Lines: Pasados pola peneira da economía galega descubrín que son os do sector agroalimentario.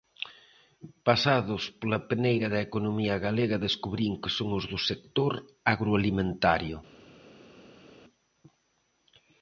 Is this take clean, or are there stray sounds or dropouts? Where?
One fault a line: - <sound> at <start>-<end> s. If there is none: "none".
none